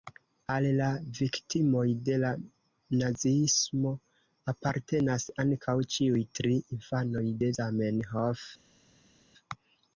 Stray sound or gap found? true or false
false